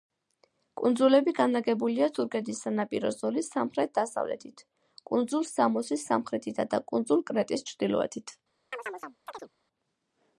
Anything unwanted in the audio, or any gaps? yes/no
yes